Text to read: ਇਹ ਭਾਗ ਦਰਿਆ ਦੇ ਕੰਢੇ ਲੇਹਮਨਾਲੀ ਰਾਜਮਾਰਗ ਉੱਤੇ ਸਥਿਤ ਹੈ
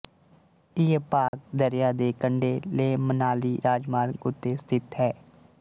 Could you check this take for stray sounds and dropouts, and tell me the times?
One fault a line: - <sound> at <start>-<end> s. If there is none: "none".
- dropout at 1.3-1.3 s